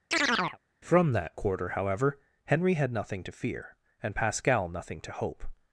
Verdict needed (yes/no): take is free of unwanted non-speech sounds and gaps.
no